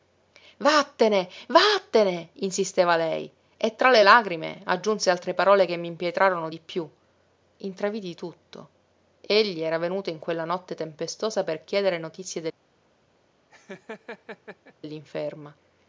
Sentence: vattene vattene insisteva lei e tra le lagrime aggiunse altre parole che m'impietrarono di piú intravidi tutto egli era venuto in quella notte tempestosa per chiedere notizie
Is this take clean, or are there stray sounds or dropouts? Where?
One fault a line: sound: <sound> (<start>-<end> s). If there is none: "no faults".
sound: laugh (13.5-14.7 s)